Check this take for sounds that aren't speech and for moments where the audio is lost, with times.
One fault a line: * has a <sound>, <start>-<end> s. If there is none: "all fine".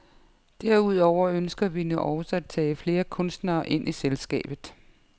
all fine